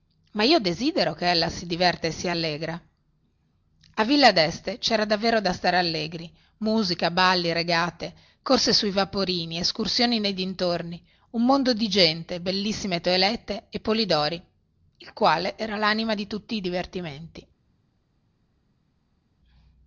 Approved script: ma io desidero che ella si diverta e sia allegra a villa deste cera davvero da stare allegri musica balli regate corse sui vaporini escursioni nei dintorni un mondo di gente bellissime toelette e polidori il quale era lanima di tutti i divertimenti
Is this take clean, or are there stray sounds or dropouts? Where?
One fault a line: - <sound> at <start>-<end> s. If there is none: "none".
none